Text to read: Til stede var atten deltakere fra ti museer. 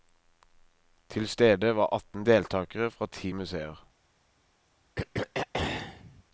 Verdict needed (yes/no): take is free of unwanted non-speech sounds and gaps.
no